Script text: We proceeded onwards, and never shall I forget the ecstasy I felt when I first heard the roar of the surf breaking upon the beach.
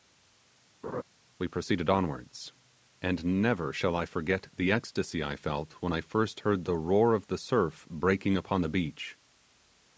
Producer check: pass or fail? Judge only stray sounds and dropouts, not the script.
fail